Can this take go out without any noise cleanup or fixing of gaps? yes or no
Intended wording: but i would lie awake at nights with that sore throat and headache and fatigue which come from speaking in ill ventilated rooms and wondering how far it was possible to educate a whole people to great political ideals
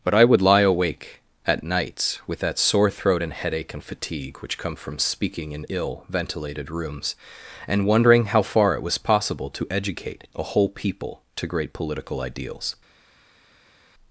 yes